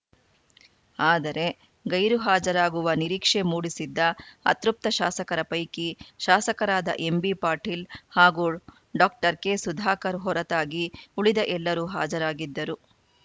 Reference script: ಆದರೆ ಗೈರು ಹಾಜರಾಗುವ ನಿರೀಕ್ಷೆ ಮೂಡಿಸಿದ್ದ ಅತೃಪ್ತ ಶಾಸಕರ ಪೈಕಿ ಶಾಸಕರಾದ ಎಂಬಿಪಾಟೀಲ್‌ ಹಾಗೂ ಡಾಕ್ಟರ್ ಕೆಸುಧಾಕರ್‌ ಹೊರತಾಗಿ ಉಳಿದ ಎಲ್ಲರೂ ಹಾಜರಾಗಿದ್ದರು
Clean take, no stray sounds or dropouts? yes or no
yes